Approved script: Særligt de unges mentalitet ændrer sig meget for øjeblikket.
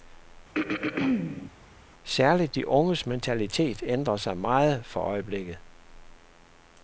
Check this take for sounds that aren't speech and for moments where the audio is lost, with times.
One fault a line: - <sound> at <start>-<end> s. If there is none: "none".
- throat clearing at 0.5-1.5 s